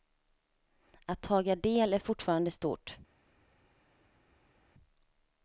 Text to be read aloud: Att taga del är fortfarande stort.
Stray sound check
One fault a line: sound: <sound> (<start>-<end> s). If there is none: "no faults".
no faults